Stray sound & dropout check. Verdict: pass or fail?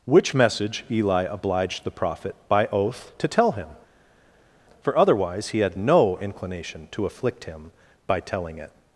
pass